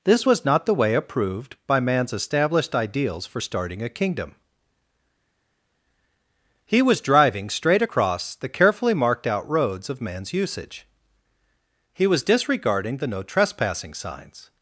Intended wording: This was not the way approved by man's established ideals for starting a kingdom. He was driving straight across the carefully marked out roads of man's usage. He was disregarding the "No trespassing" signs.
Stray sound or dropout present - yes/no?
no